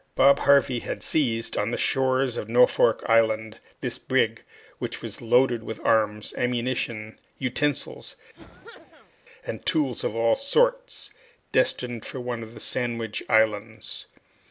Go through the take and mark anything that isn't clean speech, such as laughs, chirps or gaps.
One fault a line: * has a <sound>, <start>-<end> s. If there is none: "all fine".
* has a cough, 8.3-9.1 s